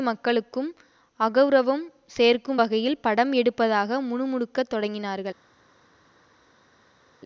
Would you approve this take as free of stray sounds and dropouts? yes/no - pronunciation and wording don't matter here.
yes